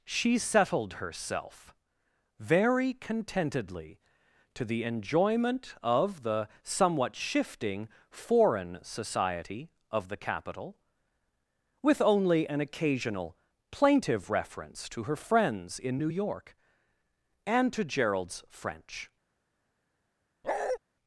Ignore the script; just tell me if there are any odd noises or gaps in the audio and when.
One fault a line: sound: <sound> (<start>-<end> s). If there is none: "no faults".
sound: bark (20.4-20.8 s)